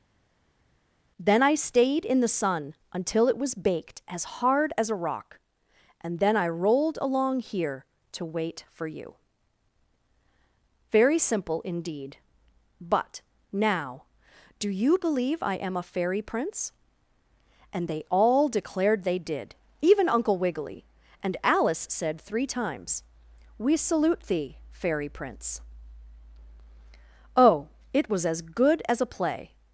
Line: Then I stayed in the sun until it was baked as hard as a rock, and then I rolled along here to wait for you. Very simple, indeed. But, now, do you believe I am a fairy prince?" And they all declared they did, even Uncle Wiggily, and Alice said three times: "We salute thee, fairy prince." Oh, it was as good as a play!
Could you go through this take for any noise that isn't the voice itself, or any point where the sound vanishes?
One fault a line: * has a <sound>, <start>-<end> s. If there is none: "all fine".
all fine